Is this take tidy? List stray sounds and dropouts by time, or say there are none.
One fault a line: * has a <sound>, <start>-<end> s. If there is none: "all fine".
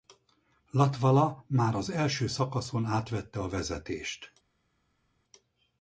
all fine